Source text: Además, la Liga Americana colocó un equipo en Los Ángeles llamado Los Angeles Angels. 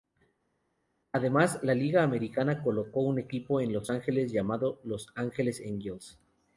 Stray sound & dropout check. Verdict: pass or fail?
pass